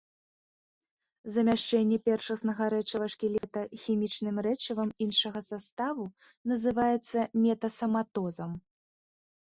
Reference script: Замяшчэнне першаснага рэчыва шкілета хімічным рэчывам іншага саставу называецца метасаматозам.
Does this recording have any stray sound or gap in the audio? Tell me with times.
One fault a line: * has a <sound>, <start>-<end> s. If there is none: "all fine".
* has a dropout, 3.4-3.4 s